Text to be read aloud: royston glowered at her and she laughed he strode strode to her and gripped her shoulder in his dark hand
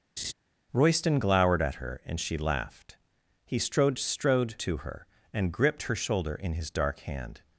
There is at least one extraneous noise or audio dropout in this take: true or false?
true